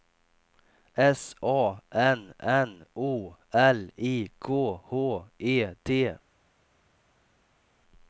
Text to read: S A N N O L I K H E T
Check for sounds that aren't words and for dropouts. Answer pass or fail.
pass